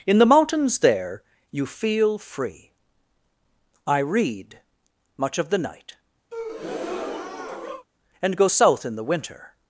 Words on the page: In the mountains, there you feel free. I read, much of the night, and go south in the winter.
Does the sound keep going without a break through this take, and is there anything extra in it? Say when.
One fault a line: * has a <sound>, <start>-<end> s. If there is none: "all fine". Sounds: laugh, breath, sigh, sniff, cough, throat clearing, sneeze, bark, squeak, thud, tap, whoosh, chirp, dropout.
* has a breath, 6.3-7.9 s